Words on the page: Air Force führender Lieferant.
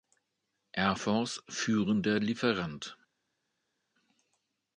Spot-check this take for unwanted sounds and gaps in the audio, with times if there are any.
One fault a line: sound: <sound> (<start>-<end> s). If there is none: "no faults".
no faults